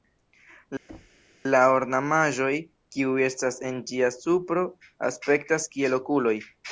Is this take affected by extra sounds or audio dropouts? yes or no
yes